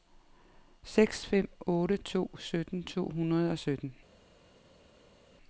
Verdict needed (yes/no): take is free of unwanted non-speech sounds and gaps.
yes